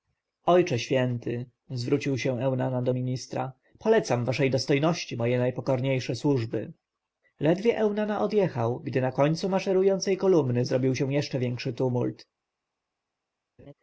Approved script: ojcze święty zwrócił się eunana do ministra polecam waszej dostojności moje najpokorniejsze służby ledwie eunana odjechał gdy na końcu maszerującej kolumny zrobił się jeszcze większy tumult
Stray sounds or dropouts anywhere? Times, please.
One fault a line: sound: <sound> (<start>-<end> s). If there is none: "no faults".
sound: laugh (13.6-13.7 s)